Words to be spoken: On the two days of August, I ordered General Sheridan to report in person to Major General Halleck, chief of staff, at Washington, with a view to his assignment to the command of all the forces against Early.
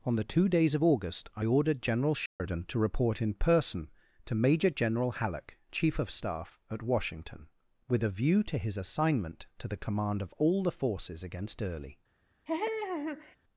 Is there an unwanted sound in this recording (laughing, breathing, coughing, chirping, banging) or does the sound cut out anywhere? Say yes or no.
yes